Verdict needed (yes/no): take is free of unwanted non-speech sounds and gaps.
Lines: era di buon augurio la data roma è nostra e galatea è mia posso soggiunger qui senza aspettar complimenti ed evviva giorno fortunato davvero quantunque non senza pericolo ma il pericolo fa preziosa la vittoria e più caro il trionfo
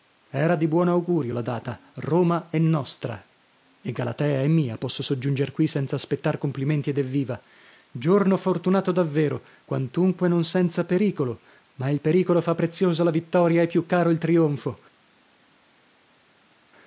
yes